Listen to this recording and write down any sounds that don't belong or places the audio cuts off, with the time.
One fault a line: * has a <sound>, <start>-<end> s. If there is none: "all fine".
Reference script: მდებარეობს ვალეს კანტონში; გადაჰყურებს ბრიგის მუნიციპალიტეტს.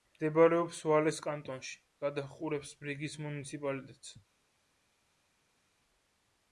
all fine